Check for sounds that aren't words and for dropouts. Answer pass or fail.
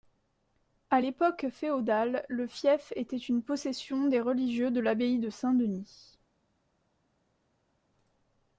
pass